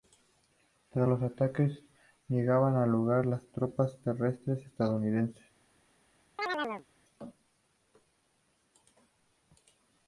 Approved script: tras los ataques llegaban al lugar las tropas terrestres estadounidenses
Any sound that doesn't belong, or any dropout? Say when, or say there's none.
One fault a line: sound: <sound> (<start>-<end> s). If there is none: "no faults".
sound: chirp (6.4-6.9 s)